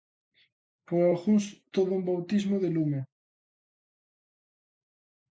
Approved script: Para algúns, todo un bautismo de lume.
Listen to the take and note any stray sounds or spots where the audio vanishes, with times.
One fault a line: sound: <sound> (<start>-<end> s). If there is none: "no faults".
no faults